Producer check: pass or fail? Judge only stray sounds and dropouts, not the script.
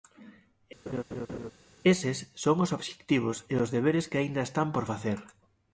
fail